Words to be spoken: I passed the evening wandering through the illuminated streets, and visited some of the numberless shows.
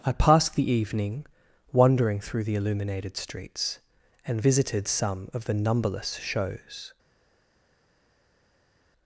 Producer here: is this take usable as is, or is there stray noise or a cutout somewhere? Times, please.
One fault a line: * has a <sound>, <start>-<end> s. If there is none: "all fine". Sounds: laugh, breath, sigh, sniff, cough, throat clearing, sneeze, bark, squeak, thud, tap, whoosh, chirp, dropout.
all fine